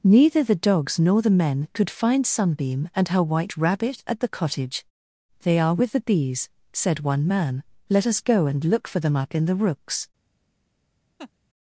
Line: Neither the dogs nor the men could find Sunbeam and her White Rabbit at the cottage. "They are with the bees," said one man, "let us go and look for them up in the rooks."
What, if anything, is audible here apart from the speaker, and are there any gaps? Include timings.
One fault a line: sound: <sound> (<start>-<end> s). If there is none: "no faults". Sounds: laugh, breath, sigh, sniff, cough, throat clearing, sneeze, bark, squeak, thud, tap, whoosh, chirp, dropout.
sound: laugh (11.2-11.3 s)